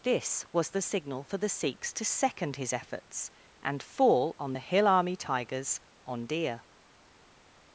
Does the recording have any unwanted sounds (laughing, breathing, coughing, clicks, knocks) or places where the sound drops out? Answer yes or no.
no